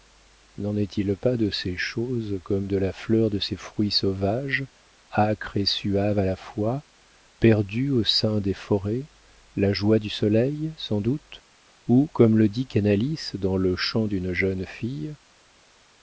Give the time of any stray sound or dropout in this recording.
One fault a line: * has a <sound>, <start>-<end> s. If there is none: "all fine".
all fine